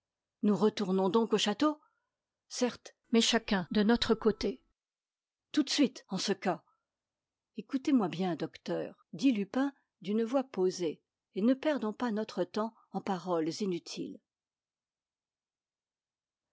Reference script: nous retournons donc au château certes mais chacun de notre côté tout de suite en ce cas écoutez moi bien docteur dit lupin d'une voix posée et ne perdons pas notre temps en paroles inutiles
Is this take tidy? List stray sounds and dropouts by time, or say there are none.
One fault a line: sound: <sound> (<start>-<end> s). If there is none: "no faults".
no faults